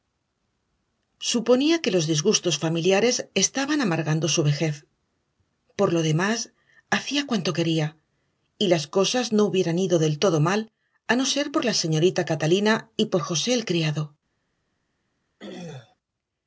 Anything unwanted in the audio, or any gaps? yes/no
yes